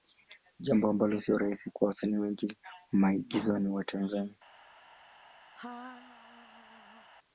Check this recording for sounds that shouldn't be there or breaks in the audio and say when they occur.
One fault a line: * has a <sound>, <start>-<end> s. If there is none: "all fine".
* has a laugh, 5.5-7.1 s